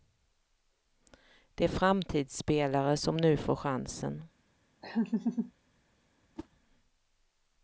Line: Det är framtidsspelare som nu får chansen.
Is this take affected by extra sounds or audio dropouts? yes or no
yes